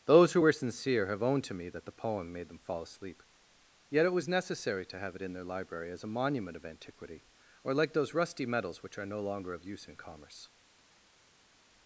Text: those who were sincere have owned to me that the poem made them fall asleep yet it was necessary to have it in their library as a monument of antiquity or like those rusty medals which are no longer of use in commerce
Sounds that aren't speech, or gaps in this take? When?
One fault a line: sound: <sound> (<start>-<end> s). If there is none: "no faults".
no faults